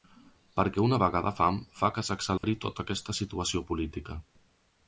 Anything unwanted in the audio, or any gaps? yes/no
yes